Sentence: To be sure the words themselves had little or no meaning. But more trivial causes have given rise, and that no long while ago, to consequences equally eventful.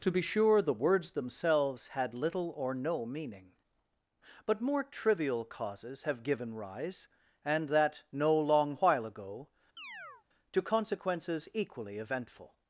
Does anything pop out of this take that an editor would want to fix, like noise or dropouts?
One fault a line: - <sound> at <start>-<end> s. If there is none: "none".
- chirp at 9.8-10.3 s